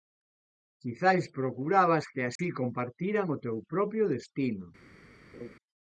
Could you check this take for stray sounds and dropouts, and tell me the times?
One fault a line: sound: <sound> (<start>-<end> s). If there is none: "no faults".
sound: dropout (2.4-2.4 s)
sound: laugh (5.3-5.6 s)